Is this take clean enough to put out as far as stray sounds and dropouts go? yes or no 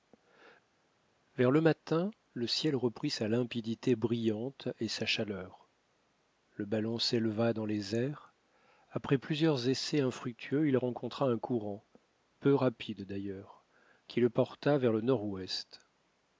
yes